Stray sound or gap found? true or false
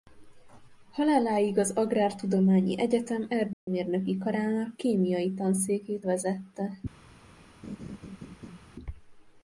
true